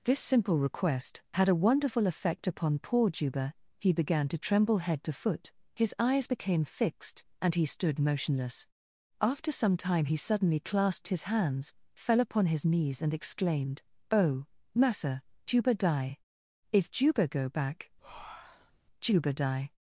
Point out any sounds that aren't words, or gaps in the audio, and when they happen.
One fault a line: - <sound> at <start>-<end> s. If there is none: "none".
- breath at 18.0-18.8 s